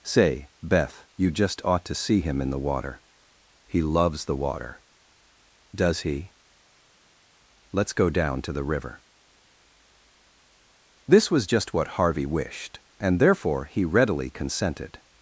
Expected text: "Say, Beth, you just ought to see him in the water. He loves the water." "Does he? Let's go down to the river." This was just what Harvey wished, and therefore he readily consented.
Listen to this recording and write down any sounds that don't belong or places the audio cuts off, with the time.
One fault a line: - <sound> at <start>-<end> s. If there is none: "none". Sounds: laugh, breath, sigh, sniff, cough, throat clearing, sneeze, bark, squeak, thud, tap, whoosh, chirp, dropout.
none